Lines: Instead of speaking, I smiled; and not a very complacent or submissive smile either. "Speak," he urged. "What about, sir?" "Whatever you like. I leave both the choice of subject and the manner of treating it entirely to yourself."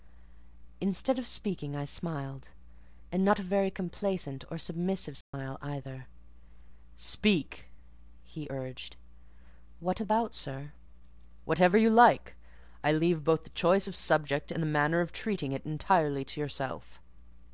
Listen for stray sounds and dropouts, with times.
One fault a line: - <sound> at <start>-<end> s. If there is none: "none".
- dropout at 5.2-5.3 s